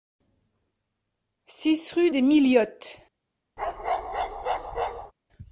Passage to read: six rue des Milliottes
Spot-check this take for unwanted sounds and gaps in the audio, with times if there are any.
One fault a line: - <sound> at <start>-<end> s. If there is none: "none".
- bark at 3.6-5.1 s